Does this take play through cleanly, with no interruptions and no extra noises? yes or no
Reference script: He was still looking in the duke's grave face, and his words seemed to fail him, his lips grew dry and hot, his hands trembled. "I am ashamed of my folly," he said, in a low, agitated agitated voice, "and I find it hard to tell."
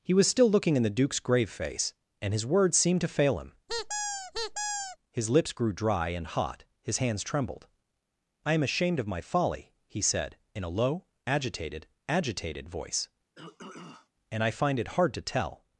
no